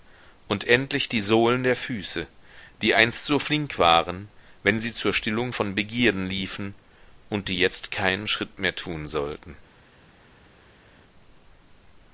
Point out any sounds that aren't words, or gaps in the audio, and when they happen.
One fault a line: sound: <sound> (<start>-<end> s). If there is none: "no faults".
no faults